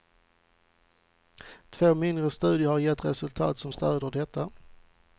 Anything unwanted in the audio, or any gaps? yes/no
no